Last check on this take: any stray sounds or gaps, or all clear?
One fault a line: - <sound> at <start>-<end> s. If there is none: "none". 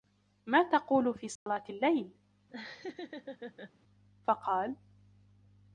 - dropout at 1.4-1.5 s
- laugh at 2.5-3.7 s